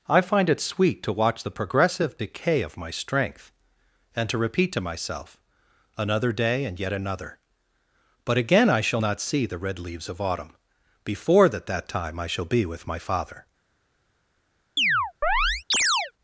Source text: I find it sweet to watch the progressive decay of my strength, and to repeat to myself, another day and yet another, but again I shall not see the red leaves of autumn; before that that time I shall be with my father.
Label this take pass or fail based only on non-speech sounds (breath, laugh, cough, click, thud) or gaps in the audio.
fail